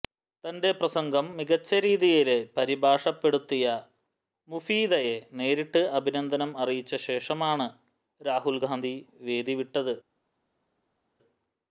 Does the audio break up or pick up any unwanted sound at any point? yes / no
no